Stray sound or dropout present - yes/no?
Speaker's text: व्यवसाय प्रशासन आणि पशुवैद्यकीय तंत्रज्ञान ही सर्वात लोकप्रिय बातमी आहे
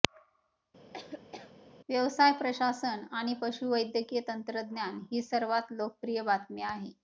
yes